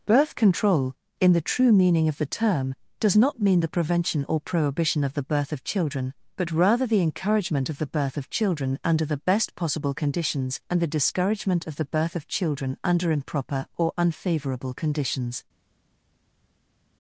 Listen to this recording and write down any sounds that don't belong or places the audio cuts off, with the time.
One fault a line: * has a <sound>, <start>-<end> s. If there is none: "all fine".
all fine